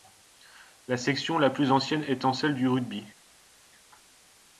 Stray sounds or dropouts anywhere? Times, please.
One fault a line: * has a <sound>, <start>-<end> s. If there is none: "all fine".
all fine